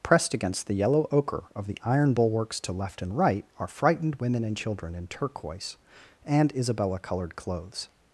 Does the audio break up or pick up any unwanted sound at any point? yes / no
no